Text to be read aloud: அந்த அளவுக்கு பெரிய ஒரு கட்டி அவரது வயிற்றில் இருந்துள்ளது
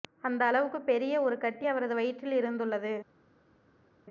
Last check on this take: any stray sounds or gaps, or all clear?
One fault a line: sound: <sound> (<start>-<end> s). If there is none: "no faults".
no faults